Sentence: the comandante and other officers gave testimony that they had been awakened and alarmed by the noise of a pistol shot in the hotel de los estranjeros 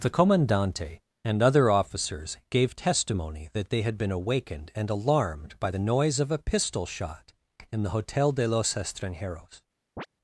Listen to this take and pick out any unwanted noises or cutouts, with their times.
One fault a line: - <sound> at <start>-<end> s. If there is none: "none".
- chirp at 10.0-10.1 s